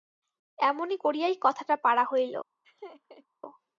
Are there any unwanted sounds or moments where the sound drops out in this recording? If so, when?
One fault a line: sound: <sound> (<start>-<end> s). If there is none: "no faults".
sound: laugh (2.6-3.3 s)